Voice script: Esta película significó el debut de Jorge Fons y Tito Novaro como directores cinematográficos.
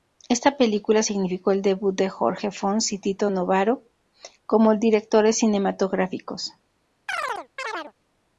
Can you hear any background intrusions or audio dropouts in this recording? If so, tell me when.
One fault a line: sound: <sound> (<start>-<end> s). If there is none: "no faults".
sound: chirp (7.1-7.9 s)